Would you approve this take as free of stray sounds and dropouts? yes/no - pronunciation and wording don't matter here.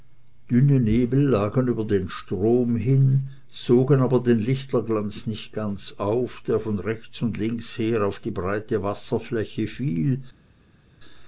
yes